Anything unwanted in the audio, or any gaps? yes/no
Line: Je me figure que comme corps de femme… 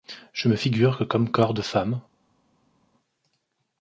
no